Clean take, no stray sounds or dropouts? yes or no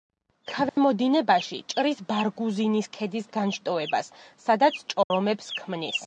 no